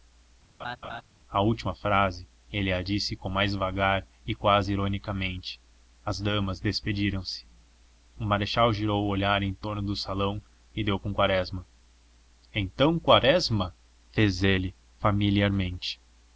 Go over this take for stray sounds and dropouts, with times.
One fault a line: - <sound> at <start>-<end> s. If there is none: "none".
- laugh at 0.6-1.0 s